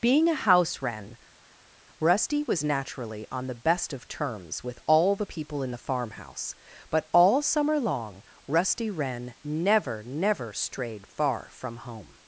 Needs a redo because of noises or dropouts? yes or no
no